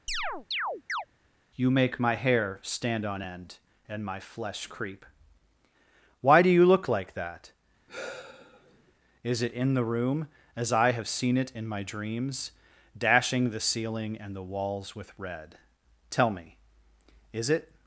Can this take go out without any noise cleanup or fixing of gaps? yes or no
no